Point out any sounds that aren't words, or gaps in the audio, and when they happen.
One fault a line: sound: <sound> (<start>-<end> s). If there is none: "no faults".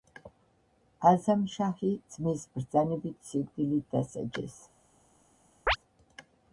sound: chirp (5.7-5.8 s)